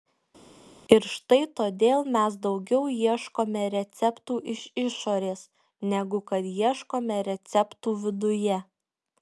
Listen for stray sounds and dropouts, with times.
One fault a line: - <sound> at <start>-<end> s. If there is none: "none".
none